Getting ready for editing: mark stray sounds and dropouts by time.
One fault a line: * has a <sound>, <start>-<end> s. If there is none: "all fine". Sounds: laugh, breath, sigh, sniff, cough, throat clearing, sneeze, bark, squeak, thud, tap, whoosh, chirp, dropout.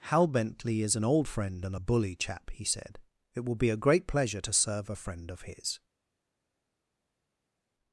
all fine